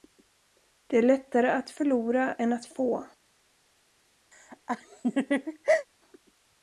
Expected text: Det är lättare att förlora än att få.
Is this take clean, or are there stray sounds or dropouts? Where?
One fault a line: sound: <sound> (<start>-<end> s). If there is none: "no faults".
sound: laugh (4.3-5.9 s)